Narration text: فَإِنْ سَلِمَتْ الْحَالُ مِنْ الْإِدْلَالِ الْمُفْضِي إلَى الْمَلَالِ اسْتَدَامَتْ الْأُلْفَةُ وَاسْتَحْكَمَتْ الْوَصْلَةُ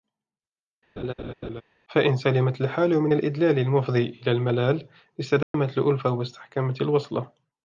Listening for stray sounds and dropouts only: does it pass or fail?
fail